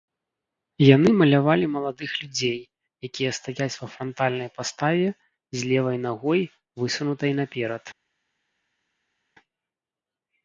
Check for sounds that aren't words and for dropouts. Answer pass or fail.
pass